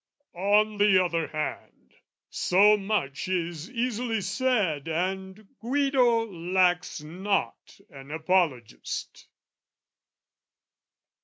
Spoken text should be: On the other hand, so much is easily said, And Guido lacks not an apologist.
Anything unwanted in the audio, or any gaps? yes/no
no